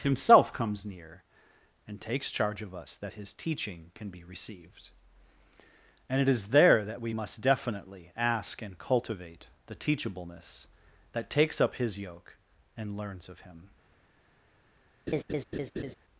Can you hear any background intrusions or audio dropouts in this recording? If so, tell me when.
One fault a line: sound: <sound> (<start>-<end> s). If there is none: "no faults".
sound: laugh (15.1-16.0 s)